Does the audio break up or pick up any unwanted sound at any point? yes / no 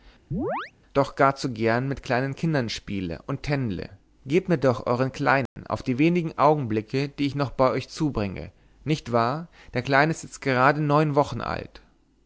yes